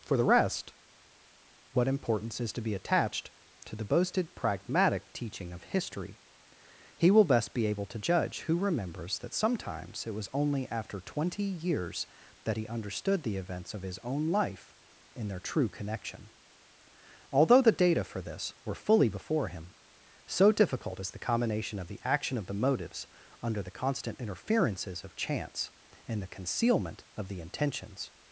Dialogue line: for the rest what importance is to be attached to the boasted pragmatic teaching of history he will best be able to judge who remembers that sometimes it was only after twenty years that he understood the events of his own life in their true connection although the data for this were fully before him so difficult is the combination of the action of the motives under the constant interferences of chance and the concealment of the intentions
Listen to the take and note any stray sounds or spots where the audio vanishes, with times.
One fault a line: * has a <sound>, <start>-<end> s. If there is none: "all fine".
all fine